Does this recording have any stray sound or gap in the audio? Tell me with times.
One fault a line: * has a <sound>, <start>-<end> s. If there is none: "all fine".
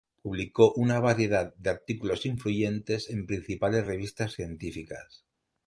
all fine